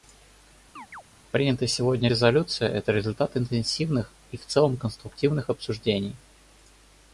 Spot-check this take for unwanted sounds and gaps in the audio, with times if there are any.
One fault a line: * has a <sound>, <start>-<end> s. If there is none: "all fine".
* has a chirp, 0.8-1.0 s